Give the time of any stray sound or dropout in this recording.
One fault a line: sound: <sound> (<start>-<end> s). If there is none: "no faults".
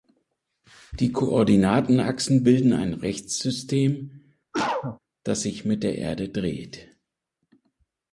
sound: cough (4.5-5.0 s)